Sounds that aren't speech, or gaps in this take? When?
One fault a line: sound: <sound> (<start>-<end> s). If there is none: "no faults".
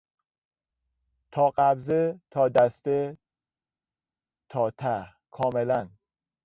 no faults